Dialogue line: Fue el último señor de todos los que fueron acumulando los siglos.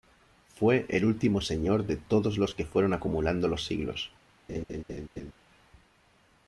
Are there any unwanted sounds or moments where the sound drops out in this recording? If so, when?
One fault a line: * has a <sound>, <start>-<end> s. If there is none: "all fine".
* has a laugh, 4.5-5.3 s